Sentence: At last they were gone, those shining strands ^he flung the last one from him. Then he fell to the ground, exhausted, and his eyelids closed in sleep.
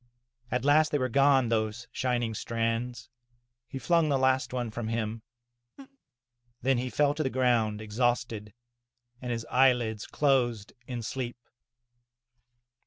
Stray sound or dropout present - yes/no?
yes